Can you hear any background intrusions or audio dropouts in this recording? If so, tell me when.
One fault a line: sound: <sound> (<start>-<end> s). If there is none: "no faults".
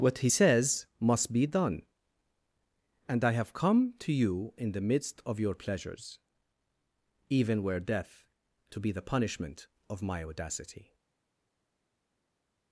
no faults